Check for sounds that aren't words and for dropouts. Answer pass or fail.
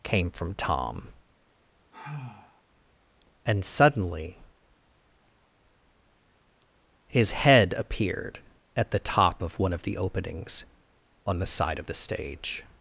fail